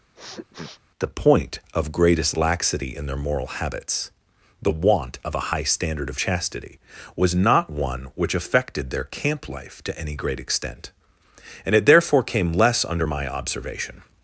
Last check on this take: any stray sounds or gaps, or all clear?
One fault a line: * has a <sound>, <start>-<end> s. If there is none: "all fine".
* has a sniff, 0.2-0.8 s